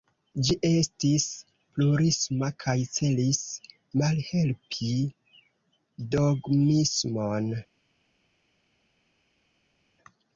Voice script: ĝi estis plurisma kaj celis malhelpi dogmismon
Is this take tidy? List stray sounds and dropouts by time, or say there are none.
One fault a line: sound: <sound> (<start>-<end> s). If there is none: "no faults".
no faults